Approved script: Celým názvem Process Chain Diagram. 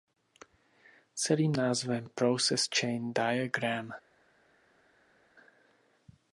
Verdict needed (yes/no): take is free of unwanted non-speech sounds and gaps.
yes